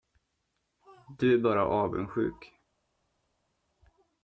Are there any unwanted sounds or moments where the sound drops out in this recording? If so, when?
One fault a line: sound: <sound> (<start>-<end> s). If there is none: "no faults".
no faults